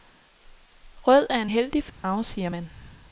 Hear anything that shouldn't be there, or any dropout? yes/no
yes